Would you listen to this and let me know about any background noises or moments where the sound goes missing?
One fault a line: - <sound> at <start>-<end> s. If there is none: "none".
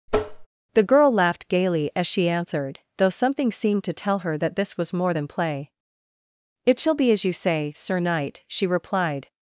- tap at 0.1-0.5 s